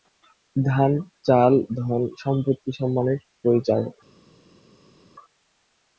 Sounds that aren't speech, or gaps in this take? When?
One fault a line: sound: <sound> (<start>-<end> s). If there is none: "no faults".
no faults